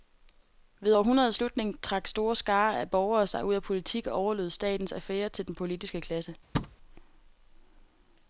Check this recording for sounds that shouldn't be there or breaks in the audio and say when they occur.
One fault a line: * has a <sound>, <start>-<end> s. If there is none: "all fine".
* has a thud, 6.5-6.8 s